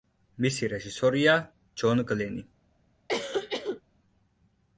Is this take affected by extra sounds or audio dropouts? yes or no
yes